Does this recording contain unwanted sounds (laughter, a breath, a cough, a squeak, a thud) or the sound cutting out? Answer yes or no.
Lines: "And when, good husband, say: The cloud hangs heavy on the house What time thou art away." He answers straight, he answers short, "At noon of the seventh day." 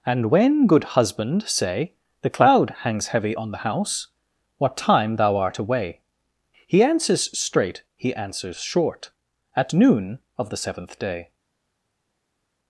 no